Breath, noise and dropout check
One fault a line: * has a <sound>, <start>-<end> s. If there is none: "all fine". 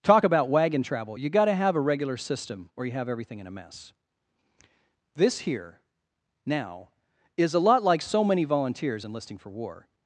all fine